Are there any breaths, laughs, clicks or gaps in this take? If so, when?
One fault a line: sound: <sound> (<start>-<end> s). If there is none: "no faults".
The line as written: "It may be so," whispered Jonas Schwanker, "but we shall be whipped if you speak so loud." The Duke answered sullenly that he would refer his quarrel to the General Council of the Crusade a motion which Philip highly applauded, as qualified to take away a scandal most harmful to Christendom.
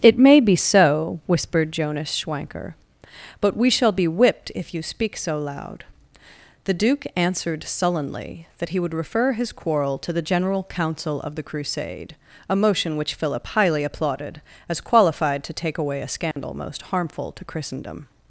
sound: dropout (16.3-16.4 s)